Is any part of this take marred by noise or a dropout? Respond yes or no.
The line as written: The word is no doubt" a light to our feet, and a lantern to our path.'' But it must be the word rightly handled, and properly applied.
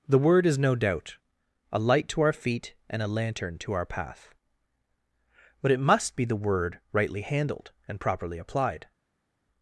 no